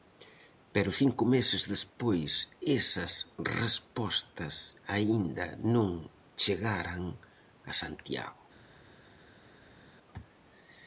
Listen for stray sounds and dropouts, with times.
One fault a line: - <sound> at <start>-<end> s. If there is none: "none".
none